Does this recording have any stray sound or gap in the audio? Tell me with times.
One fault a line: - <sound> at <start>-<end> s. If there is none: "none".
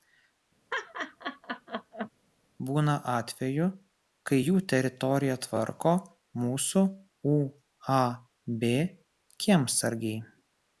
- laugh at 0.7-2.1 s